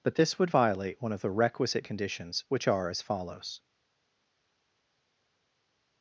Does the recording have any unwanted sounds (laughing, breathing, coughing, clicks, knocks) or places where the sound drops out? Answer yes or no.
no